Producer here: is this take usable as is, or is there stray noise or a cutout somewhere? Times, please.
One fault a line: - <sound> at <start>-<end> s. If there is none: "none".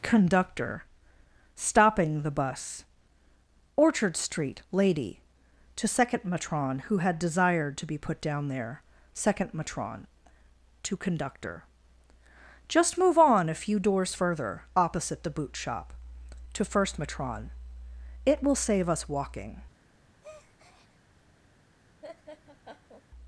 - breath at 20.2-21.0 s
- laugh at 22.0-23.1 s